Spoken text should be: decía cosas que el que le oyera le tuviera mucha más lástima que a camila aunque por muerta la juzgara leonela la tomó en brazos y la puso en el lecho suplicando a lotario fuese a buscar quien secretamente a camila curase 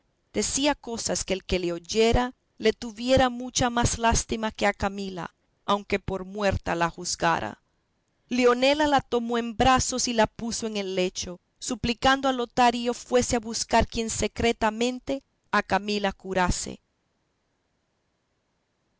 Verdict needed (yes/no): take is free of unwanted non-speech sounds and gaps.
yes